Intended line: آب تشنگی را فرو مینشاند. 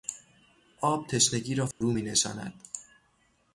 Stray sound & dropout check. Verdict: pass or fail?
fail